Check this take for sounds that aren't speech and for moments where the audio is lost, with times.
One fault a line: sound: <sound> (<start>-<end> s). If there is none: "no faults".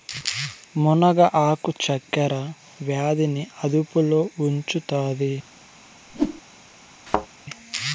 sound: whoosh (6.1-6.4 s)
sound: thud (7.1-7.3 s)